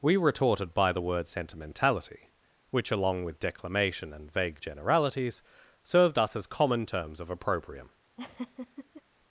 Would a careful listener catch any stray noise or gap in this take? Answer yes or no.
yes